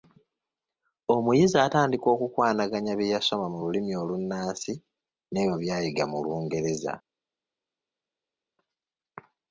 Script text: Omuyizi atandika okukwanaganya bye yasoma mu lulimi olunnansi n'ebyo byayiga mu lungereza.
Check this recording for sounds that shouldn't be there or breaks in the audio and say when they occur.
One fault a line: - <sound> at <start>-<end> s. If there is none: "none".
none